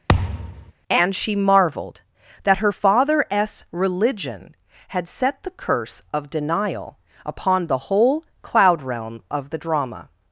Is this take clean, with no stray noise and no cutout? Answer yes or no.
no